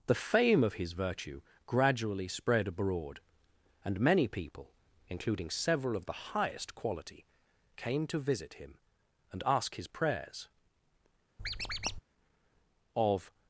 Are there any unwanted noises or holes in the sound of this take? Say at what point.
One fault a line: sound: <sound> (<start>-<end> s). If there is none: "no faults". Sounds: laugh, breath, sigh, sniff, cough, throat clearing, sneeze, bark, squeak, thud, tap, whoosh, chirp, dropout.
sound: squeak (11.4-12.0 s)